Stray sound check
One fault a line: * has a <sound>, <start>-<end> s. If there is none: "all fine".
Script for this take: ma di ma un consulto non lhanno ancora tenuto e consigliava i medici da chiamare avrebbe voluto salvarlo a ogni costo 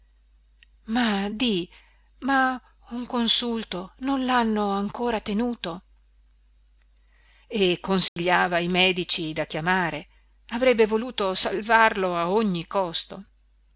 * has a dropout, 8.1-8.2 s